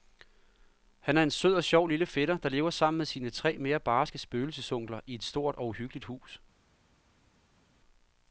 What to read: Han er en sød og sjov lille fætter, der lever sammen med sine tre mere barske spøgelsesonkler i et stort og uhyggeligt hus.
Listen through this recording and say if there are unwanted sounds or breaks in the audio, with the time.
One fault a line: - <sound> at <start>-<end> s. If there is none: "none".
none